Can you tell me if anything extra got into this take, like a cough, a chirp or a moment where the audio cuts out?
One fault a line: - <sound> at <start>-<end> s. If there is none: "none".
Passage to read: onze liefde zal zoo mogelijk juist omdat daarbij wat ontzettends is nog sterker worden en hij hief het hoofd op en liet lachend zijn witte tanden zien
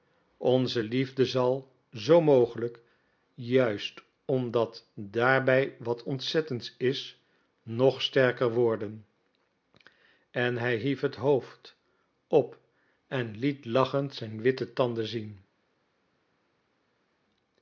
none